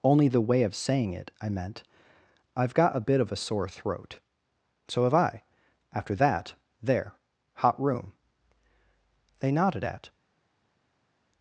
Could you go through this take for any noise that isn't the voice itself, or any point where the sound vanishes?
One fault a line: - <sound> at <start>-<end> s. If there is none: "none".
none